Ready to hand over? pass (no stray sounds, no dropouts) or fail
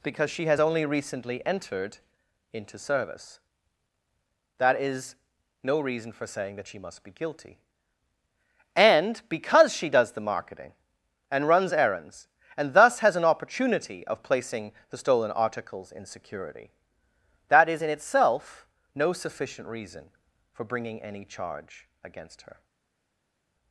pass